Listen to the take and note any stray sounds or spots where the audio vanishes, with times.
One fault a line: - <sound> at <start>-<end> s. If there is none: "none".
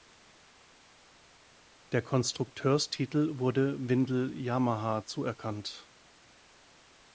none